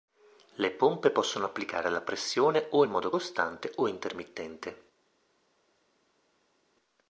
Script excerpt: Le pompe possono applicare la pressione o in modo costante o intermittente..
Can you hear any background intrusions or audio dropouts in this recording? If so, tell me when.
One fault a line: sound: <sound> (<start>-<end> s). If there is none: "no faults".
no faults